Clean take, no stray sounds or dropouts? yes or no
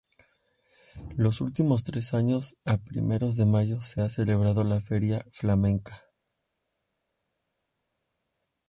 yes